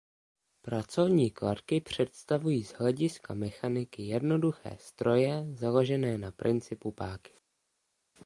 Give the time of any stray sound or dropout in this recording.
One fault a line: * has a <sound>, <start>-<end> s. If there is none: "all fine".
all fine